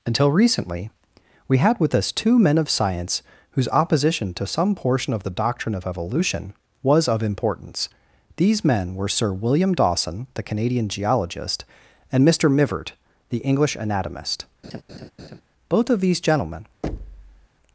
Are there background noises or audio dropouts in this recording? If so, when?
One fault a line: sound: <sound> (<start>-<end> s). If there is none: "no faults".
sound: laugh (14.6-15.4 s)
sound: thud (16.8-17.5 s)